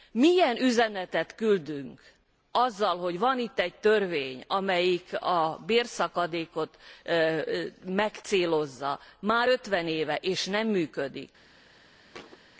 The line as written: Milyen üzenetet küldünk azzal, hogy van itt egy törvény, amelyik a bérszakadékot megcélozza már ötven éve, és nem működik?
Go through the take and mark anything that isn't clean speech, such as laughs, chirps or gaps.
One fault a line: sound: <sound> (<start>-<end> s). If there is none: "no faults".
sound: thud (12.1-12.4 s)